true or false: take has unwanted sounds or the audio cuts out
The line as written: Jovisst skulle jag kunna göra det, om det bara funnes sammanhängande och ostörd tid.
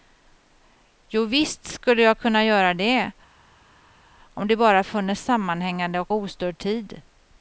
false